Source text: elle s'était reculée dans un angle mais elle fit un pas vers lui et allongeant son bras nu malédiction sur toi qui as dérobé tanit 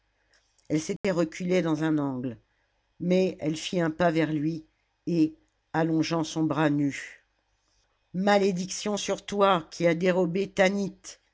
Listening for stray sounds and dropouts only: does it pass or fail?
fail